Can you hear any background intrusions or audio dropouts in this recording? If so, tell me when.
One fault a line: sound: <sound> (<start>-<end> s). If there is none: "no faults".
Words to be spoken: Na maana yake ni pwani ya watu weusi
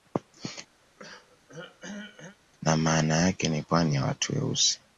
sound: throat clearing (0.8-2.4 s)